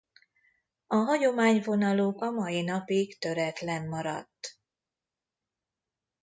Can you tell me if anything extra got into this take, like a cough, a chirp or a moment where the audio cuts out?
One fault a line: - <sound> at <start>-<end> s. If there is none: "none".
none